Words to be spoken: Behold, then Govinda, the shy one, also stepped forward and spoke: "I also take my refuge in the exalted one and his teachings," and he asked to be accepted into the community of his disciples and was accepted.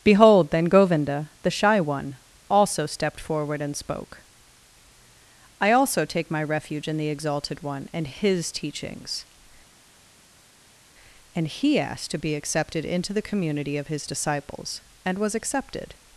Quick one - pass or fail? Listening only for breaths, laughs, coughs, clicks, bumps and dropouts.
pass